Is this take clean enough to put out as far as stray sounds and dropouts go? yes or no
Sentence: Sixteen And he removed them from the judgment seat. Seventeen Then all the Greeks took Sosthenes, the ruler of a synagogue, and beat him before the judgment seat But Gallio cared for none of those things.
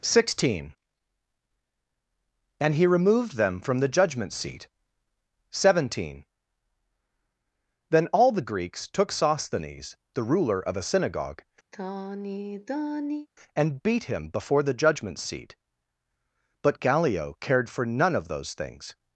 no